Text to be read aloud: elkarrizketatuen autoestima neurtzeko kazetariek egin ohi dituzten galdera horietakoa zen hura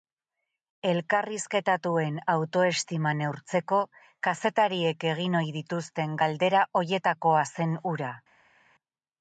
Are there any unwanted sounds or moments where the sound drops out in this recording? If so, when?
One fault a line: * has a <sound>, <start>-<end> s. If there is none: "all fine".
all fine